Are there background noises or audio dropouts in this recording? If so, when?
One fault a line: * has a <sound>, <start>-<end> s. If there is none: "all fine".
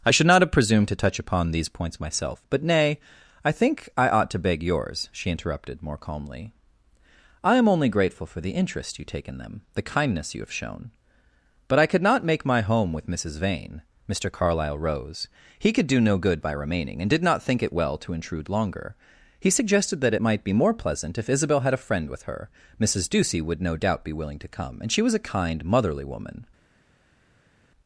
all fine